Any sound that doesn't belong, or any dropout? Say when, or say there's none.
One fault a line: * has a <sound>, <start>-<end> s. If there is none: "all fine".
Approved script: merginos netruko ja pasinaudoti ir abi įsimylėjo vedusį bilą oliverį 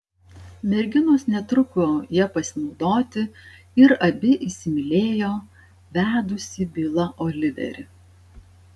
all fine